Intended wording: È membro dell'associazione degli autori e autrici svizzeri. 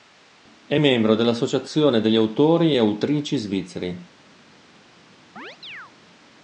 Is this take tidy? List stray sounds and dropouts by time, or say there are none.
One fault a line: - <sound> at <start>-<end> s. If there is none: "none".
- chirp at 5.4-5.9 s